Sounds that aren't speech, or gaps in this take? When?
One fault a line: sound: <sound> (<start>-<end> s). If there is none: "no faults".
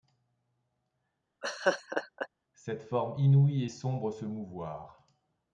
sound: laugh (1.4-2.3 s)